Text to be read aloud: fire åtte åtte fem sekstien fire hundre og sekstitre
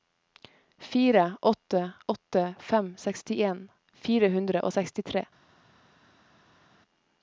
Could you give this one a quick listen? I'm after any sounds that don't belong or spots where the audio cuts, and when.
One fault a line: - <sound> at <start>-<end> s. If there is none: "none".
none